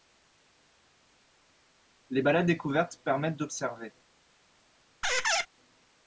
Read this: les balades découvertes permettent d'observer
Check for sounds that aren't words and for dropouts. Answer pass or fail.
fail